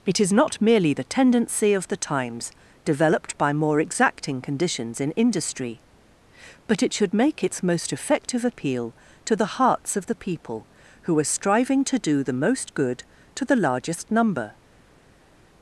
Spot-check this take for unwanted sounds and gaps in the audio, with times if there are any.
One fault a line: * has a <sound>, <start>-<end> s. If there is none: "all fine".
all fine